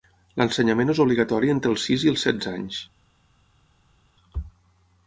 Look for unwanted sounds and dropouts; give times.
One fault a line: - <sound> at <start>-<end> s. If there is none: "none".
none